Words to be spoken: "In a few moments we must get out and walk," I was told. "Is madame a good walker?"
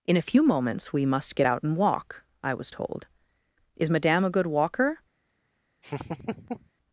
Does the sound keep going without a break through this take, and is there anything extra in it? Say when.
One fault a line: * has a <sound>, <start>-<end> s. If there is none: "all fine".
* has a laugh, 5.8-6.7 s